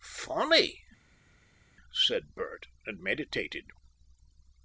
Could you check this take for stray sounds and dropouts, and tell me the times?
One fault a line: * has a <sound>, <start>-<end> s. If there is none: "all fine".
all fine